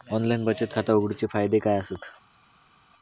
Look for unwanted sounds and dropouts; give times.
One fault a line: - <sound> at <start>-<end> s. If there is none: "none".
none